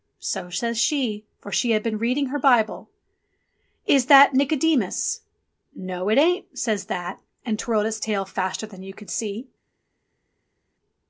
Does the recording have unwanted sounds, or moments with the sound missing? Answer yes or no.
no